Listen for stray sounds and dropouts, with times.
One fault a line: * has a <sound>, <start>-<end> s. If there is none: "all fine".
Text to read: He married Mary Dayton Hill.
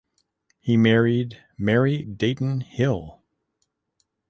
all fine